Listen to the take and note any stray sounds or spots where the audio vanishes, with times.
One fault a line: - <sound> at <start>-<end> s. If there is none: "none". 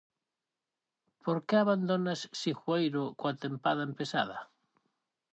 none